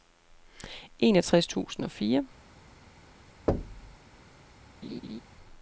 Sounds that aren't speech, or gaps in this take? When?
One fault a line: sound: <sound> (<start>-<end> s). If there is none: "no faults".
sound: thud (3.5-4.0 s)
sound: laugh (4.8-5.2 s)